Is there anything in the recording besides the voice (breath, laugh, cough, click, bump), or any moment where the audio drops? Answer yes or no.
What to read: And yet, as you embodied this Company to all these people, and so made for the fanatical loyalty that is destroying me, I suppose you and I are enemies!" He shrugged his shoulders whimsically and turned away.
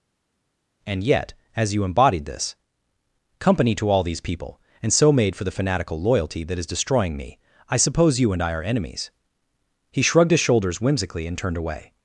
no